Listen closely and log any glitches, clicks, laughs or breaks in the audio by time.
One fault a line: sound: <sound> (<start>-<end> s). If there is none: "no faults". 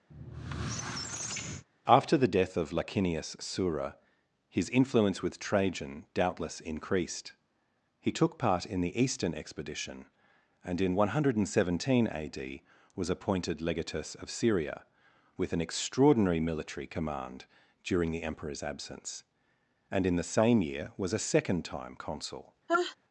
sound: squeak (0.1-1.6 s)
sound: sneeze (22.7-23.0 s)